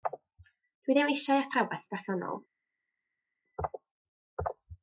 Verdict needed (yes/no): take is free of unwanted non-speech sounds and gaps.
yes